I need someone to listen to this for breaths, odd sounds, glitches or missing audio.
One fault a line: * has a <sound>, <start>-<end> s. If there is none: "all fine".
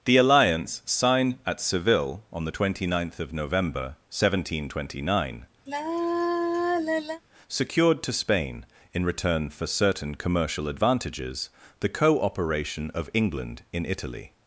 * has a sigh, 5.7-7.2 s